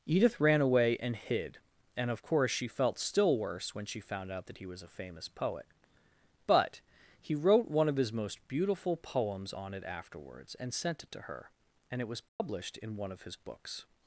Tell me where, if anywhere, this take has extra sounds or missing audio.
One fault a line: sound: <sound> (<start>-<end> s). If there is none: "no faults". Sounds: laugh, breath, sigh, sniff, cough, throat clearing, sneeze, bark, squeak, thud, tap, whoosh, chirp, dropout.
sound: dropout (12.3-12.4 s)